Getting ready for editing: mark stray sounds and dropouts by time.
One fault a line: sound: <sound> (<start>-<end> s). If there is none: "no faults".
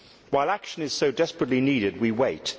no faults